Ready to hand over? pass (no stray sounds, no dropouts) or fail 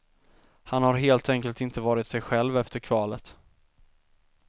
pass